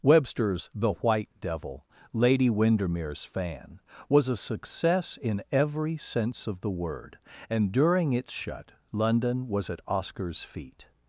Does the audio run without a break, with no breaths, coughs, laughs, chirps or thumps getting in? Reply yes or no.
yes